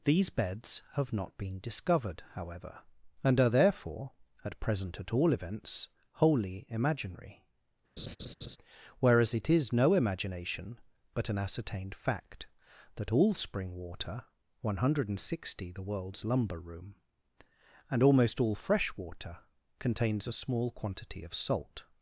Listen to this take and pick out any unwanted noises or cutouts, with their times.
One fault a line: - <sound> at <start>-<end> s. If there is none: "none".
- laugh at 8.0-8.6 s